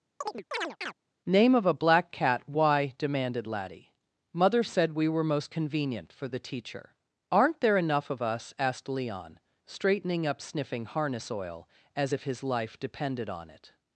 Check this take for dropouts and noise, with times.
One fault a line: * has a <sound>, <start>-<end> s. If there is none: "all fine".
* has a chirp, 0.2-0.9 s